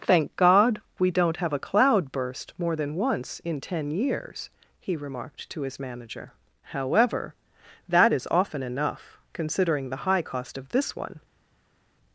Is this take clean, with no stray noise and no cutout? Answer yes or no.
yes